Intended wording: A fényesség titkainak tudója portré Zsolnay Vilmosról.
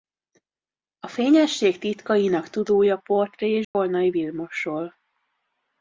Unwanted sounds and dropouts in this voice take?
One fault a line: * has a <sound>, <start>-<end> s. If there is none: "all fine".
* has a dropout, 3.6-3.7 s